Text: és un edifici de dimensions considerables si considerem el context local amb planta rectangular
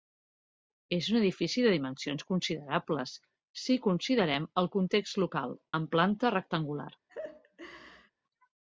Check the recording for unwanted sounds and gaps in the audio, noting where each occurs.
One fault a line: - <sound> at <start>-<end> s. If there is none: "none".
- laugh at 7.1-8.1 s